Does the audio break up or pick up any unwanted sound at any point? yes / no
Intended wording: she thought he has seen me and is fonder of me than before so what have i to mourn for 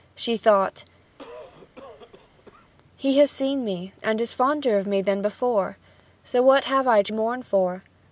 yes